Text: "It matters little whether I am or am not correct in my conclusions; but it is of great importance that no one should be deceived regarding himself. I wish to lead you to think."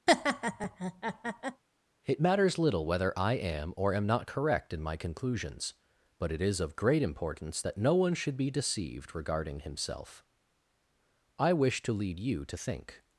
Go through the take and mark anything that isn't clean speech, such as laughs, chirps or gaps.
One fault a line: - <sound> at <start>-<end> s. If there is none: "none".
- laugh at 0.1-1.6 s